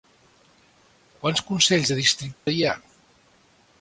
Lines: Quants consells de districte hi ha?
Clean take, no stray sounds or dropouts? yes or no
no